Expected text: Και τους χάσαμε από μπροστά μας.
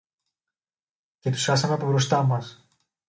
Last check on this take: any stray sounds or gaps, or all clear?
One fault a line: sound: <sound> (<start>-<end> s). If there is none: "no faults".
no faults